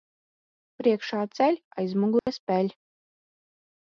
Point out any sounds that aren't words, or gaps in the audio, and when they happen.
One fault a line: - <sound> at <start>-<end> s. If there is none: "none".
- dropout at 2.2-2.3 s